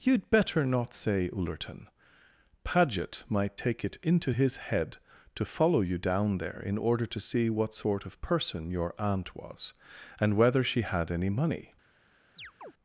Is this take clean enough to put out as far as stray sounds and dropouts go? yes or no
no